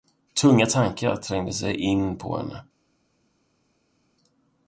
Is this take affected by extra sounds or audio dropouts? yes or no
no